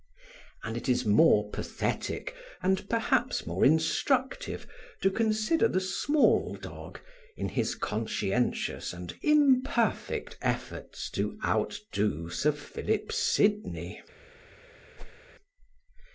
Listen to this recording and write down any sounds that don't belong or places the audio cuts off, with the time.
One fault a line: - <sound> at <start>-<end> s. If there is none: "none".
- whoosh at 15.0-15.2 s